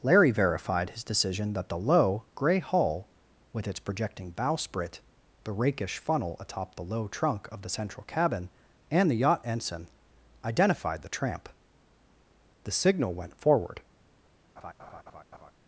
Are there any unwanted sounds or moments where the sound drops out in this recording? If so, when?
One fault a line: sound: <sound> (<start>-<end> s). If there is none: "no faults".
sound: laugh (14.6-15.5 s)